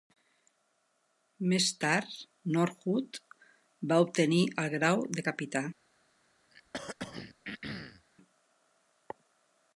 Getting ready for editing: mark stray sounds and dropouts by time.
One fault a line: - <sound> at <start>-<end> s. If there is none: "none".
- throat clearing at 6.5-8.1 s